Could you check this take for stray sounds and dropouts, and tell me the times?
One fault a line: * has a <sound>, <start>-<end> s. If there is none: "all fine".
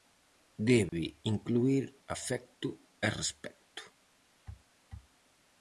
* has a dropout, 0.9-0.9 s